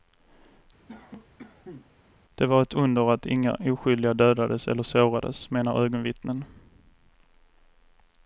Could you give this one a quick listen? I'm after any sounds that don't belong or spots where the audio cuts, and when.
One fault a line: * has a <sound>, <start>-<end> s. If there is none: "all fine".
* has a cough, 0.9-1.9 s